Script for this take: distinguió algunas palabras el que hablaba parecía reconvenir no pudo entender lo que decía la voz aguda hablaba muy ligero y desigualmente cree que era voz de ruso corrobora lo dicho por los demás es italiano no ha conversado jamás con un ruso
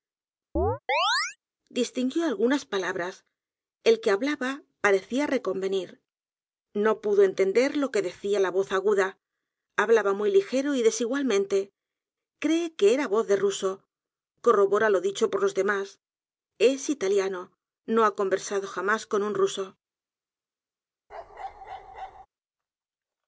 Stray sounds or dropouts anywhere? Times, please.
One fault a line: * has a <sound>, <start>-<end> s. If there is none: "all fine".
* has a chirp, 0.6-1.4 s
* has a bark, 21.1-22.3 s